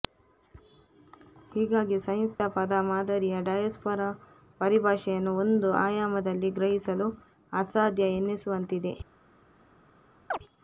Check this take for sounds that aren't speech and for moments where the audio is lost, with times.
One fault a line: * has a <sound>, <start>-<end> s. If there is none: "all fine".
* has a dropout, 2.4-2.4 s
* has a chirp, 10.3-10.4 s